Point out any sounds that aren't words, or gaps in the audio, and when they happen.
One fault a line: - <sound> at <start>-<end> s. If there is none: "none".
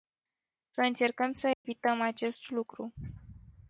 - dropout at 1.5-1.6 s